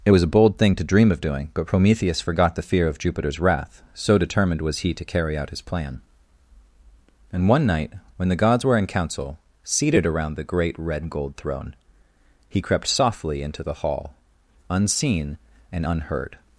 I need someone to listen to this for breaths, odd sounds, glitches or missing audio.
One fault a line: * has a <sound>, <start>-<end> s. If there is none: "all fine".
all fine